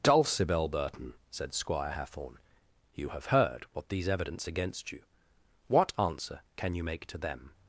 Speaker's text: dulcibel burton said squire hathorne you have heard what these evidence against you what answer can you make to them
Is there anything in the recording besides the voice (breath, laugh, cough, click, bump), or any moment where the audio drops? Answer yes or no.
no